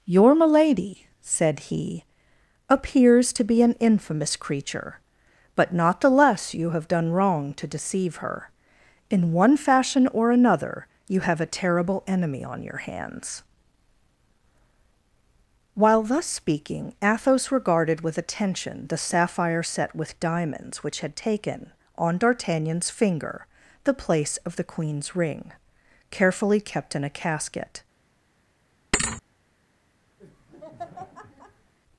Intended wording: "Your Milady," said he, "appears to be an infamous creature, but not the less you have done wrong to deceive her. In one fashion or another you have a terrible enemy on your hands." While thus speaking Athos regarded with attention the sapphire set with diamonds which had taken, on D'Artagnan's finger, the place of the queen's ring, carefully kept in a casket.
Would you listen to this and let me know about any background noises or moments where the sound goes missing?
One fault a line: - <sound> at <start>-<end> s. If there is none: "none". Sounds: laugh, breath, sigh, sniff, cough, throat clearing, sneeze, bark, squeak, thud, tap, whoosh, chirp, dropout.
- thud at 28.9-29.2 s
- laugh at 30.2-31.7 s